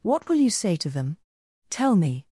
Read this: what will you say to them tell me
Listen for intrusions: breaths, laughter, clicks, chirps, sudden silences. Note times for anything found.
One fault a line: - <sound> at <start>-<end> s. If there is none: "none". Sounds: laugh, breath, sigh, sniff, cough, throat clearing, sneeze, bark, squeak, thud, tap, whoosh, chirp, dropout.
none